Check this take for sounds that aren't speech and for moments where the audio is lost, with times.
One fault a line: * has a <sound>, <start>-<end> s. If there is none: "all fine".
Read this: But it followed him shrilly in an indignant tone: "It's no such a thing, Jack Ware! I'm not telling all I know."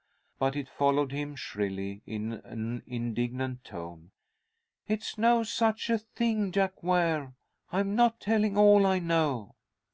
all fine